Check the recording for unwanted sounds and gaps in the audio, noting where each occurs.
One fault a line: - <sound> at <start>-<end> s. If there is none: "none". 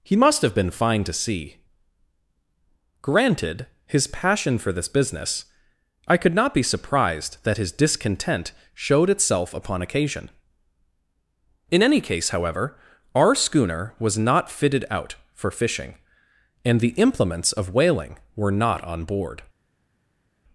none